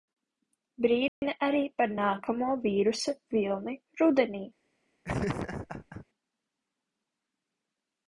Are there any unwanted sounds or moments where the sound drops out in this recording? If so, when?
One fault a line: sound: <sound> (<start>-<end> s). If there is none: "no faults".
sound: dropout (1.1-1.2 s)
sound: laugh (5.0-6.1 s)